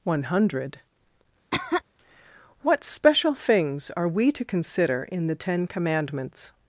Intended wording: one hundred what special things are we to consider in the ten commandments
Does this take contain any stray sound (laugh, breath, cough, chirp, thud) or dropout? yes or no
yes